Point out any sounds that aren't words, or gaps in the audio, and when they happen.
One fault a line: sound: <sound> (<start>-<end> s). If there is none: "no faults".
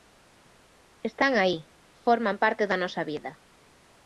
no faults